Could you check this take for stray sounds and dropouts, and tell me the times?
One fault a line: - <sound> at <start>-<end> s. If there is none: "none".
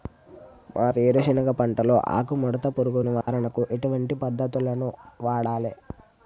- dropout at 3.2-3.3 s